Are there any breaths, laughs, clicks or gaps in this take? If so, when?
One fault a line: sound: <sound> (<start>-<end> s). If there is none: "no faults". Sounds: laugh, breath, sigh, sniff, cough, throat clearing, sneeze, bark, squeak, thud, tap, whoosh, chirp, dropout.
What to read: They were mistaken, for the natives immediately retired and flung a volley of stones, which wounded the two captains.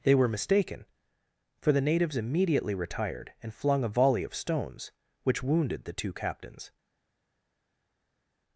no faults